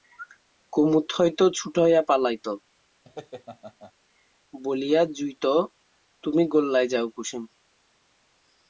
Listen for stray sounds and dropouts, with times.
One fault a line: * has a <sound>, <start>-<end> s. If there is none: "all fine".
* has a laugh, 3.0-3.9 s